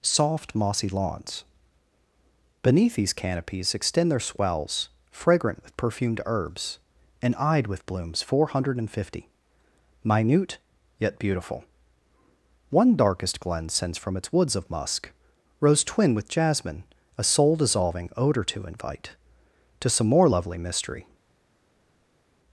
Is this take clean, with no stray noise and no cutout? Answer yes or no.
yes